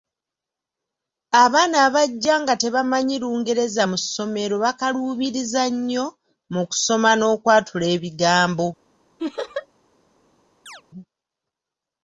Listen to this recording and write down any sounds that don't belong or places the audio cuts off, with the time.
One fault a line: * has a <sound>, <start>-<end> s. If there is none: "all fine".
* has a laugh, 9.2-9.7 s
* has a chirp, 10.7-10.8 s